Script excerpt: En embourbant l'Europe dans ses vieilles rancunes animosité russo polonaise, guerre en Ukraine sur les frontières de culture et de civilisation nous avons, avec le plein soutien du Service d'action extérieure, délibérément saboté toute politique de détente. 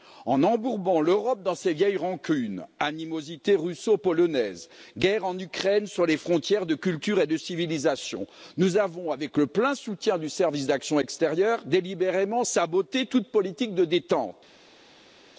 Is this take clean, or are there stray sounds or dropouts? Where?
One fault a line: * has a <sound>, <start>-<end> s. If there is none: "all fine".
all fine